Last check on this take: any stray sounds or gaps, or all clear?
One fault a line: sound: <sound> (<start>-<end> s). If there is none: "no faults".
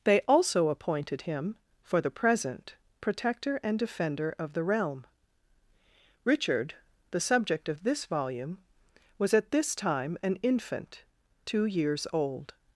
no faults